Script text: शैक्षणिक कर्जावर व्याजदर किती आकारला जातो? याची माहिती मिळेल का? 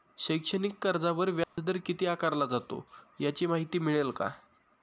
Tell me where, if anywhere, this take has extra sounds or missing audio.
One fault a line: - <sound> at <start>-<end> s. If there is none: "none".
- dropout at 1.4-1.6 s